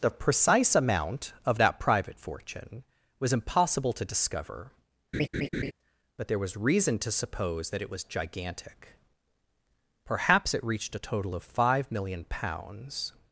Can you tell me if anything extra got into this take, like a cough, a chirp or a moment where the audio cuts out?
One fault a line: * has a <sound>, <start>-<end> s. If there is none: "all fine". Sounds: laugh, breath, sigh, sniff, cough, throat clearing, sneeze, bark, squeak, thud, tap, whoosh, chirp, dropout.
* has a laugh, 5.1-5.7 s